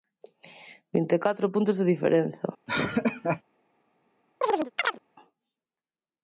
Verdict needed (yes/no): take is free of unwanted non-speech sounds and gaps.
no